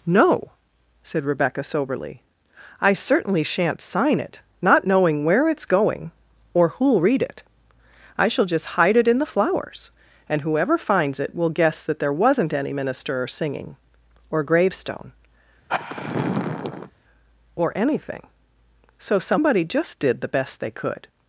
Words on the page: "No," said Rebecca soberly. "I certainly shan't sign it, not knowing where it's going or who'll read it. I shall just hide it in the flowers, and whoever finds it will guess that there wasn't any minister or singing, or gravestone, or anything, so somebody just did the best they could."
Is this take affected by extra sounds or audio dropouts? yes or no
yes